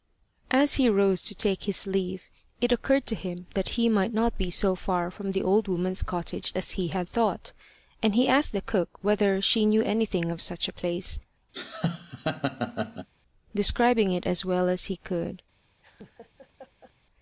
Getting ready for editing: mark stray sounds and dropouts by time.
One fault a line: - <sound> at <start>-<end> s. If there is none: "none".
- laugh at 11.5-13.1 s
- laugh at 15.8-16.9 s